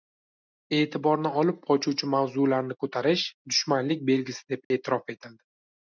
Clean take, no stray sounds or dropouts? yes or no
no